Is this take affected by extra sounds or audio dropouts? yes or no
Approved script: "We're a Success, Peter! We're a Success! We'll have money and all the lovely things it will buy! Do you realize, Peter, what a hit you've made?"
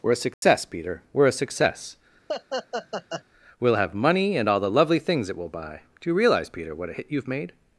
yes